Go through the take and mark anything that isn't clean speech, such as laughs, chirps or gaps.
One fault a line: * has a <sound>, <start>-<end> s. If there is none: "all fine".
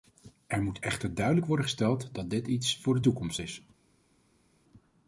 all fine